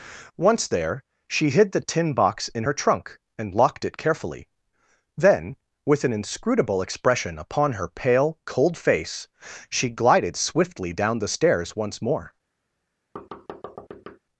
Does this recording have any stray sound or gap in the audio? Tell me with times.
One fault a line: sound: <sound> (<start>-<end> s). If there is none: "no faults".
sound: thud (13.2-14.2 s)